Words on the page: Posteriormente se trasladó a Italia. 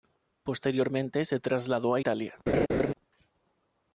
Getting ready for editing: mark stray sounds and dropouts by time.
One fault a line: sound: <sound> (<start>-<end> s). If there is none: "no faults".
sound: laugh (2.5-2.9 s)